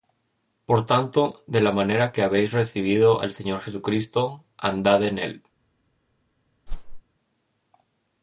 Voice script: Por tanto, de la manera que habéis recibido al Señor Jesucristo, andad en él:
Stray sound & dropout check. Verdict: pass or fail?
fail